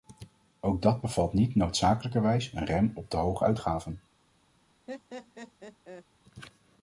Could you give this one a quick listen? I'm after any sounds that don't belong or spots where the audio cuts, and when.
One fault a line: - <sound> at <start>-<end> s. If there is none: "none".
- laugh at 4.9-6.1 s